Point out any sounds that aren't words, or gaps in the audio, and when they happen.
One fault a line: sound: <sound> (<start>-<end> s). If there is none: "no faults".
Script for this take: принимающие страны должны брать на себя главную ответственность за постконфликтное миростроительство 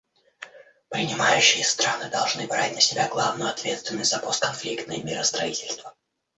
no faults